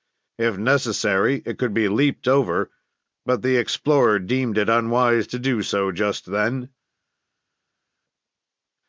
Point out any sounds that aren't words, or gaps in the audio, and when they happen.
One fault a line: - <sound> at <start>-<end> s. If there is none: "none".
none